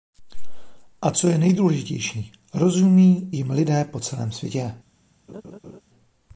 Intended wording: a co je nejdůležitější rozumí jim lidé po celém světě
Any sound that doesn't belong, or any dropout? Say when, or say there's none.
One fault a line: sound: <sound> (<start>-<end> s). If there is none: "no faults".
sound: laugh (5.3-5.8 s)